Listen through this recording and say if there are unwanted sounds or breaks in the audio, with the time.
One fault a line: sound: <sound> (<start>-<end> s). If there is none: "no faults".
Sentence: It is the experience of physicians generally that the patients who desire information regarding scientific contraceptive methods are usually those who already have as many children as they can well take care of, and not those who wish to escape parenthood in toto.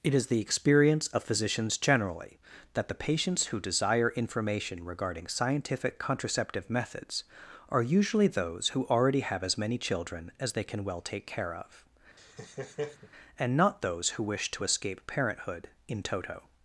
sound: laugh (12.2-13.1 s)